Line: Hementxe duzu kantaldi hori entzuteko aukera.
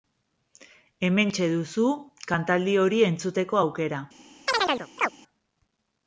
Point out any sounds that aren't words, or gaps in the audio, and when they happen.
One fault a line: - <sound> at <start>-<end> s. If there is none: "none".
- chirp at 4.5-5.1 s